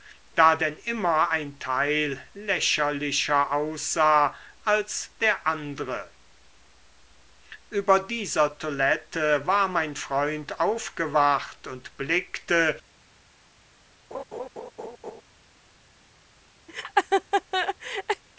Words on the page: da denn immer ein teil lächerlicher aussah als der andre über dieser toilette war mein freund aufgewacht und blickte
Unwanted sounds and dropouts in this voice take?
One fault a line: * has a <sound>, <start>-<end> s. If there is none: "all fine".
* has a laugh, 14.1-15.2 s
* has a laugh, 16.7-18.2 s